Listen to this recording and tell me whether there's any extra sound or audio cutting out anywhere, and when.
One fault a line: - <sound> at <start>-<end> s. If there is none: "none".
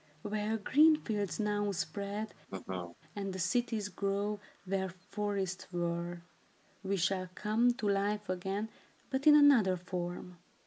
- laugh at 2.5-3.0 s